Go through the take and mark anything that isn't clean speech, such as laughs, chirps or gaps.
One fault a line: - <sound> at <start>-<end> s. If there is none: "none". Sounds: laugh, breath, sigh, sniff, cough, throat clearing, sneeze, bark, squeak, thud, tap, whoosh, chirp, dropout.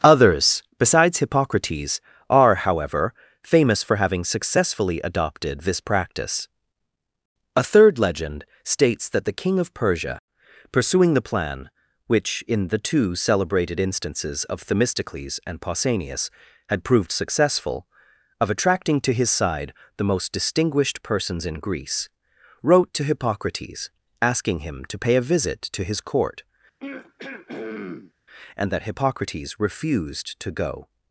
- throat clearing at 26.8-28.1 s